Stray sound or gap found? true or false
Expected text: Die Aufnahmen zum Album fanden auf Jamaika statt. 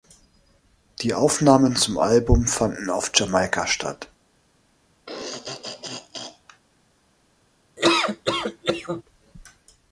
true